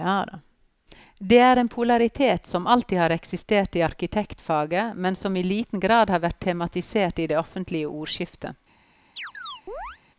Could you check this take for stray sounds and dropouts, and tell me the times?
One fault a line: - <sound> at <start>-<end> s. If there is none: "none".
- chirp at 9.2-10.0 s